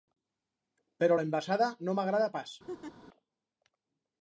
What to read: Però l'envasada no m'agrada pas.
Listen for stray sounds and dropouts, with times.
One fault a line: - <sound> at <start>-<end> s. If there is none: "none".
- laugh at 2.7-2.9 s